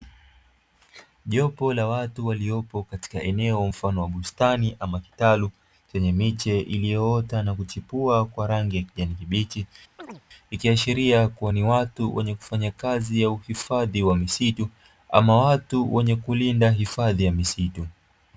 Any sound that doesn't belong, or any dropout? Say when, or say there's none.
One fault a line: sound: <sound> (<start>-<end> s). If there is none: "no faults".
sound: chirp (10.0-10.2 s)